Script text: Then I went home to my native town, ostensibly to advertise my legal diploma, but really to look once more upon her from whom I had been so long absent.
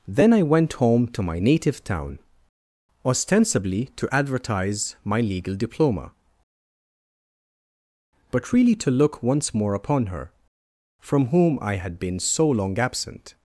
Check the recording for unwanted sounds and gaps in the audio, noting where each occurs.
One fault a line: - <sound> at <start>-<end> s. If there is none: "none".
none